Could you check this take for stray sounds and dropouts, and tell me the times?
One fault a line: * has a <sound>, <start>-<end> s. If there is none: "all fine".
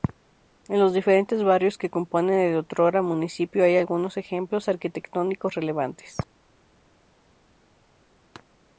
all fine